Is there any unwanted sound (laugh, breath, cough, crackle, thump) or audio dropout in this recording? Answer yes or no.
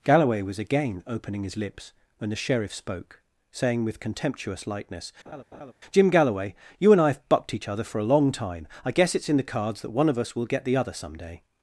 yes